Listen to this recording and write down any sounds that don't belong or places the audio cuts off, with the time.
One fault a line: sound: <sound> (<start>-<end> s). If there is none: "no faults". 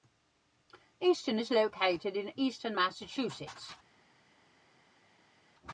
no faults